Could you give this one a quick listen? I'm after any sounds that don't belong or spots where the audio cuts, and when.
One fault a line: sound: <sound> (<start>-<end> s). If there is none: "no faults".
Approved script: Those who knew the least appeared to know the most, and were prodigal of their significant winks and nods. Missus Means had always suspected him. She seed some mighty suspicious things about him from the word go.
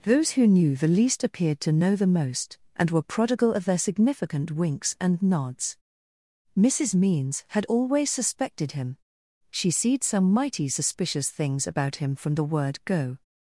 no faults